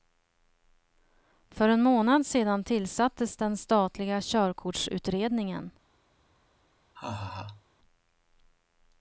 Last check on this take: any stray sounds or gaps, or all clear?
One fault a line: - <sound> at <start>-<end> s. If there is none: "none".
- laugh at 6.9-7.6 s